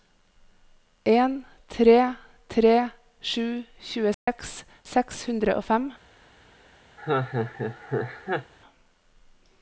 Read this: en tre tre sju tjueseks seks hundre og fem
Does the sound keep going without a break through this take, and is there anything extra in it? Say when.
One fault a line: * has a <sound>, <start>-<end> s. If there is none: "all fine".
* has a dropout, 4.1-4.3 s
* has a laugh, 7.0-8.5 s